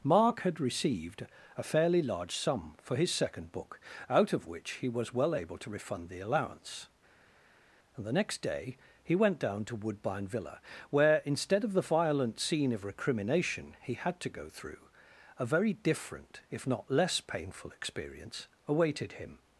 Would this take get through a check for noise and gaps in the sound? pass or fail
pass